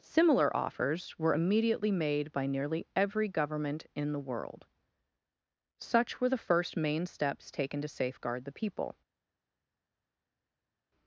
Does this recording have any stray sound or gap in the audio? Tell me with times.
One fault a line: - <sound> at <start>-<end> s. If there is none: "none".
none